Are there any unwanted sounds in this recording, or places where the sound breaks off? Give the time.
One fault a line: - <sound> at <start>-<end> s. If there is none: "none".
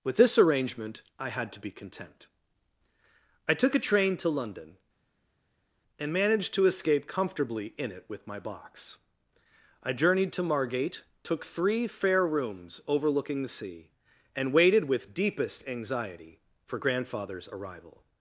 none